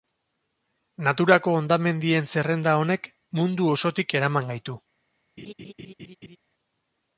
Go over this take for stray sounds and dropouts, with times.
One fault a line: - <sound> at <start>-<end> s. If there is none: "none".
- laugh at 5.4-6.4 s